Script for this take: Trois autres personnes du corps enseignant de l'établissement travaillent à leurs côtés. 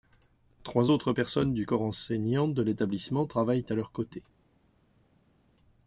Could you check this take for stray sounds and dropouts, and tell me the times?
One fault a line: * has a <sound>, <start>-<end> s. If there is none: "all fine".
all fine